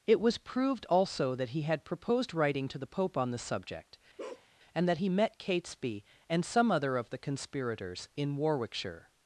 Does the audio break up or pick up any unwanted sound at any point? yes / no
yes